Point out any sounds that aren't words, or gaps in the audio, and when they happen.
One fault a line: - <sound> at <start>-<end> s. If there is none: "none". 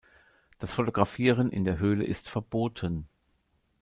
none